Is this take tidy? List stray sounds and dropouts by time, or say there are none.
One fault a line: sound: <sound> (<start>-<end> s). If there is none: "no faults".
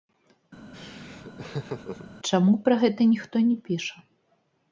sound: laugh (0.7-2.1 s)